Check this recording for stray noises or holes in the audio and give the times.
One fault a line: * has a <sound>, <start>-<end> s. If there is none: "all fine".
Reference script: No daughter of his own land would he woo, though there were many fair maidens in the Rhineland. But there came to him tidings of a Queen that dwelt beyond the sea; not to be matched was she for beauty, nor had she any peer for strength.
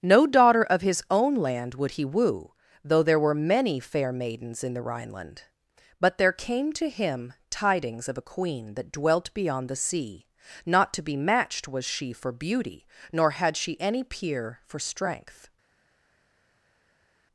all fine